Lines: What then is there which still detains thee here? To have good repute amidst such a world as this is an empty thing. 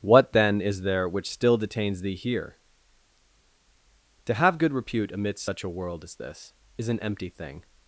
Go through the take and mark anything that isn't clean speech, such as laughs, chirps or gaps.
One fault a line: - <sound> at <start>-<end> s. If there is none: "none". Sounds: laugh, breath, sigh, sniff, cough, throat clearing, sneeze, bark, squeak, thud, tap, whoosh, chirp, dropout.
none